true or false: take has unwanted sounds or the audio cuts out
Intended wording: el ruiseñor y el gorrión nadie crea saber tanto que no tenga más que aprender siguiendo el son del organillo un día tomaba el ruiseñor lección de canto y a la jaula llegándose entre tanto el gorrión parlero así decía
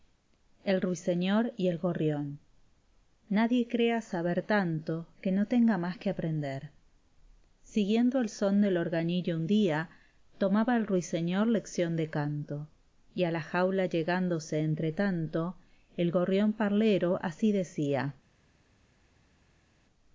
false